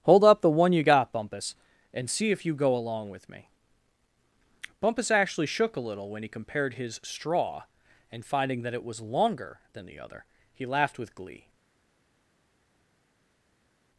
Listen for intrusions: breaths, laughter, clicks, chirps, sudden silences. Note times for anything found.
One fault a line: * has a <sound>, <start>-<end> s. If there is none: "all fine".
all fine